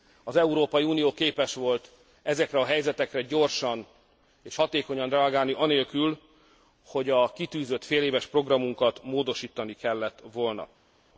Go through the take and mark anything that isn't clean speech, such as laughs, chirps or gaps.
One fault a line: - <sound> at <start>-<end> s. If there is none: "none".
none